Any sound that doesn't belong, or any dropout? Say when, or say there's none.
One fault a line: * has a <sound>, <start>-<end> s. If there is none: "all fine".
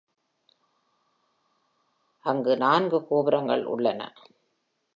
all fine